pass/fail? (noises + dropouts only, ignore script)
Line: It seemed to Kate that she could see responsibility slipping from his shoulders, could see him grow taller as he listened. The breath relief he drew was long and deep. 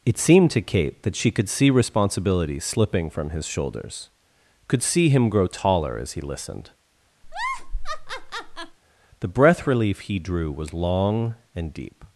fail